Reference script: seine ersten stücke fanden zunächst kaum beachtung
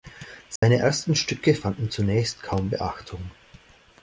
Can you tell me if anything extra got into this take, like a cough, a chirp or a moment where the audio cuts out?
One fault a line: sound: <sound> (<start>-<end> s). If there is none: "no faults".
sound: dropout (0.6-0.6 s)